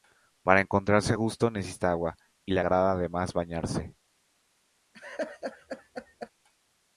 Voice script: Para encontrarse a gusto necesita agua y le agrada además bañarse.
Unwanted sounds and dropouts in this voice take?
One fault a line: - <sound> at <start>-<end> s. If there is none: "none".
- laugh at 4.9-6.3 s